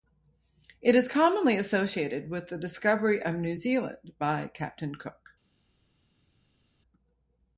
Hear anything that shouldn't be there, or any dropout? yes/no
no